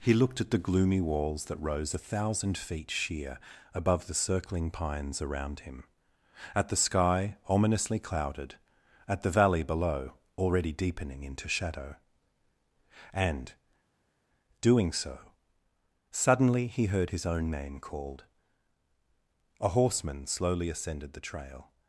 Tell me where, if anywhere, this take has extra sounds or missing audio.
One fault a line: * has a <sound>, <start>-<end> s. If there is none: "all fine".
all fine